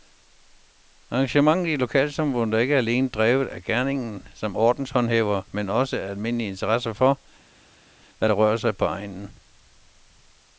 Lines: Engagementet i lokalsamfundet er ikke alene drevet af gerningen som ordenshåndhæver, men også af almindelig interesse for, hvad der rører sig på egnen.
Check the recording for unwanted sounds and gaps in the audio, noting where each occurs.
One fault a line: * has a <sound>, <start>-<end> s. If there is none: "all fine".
all fine